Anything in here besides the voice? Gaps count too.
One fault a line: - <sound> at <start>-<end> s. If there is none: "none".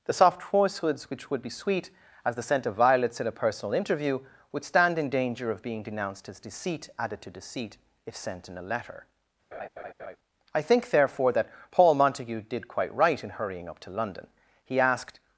- laugh at 9.5-10.2 s